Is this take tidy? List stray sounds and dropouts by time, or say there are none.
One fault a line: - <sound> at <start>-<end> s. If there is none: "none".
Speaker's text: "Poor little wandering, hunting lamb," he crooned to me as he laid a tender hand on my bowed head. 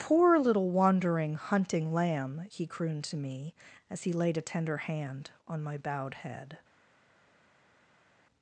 none